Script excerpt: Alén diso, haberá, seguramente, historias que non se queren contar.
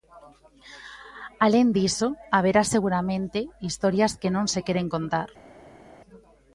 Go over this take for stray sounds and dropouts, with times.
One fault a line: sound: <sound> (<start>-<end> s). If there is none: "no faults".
no faults